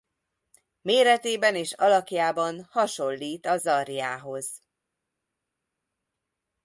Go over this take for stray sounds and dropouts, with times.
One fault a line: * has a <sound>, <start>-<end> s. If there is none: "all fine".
all fine